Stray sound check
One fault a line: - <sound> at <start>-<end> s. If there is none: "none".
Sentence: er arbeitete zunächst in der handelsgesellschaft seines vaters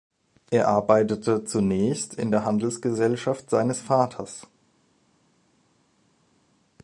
none